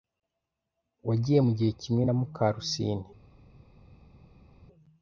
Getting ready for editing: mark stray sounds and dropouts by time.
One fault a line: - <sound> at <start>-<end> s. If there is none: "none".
none